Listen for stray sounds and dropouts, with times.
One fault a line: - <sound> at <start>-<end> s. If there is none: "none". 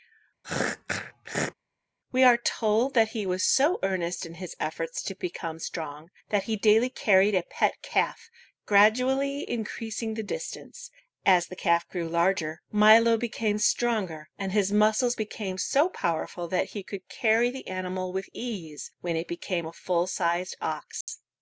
- throat clearing at 0.4-1.5 s
- dropout at 21.0-21.1 s